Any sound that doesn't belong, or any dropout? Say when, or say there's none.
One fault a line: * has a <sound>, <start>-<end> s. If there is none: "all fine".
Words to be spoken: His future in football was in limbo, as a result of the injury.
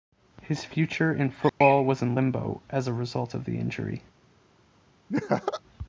* has a dropout, 1.5-1.6 s
* has a laugh, 5.1-5.6 s